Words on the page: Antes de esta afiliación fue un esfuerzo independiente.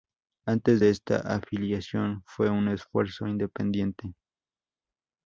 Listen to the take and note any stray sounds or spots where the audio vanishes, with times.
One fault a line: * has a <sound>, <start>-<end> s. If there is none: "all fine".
all fine